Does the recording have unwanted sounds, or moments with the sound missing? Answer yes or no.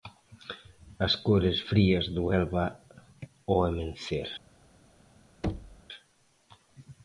yes